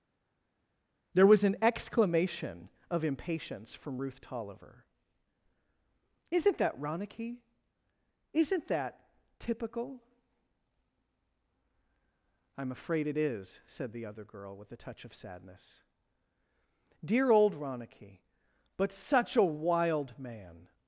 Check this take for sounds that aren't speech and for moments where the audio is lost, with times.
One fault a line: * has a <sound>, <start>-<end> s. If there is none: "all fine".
all fine